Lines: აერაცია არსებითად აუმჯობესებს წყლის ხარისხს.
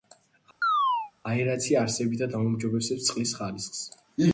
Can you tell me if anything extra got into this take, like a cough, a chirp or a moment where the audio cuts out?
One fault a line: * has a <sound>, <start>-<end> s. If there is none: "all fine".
* has a chirp, 0.6-1.1 s